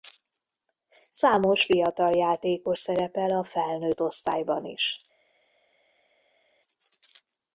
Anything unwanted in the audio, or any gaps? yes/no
no